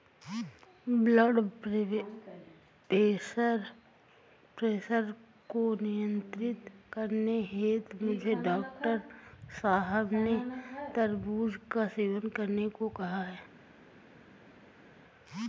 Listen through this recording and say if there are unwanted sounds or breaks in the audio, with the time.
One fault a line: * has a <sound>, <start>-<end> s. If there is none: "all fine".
all fine